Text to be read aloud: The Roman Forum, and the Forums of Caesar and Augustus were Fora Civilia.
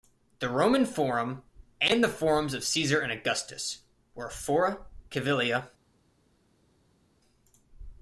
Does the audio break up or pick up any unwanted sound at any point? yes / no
no